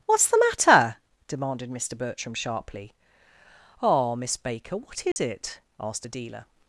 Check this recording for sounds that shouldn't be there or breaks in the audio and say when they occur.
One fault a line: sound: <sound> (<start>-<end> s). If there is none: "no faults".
sound: dropout (5.1-5.2 s)